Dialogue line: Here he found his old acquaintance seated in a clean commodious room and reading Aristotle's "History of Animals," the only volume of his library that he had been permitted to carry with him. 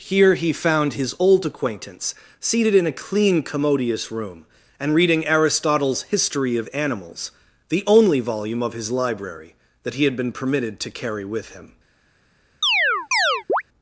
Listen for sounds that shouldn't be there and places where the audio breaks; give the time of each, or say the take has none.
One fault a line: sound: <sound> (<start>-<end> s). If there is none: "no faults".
sound: chirp (12.6-13.6 s)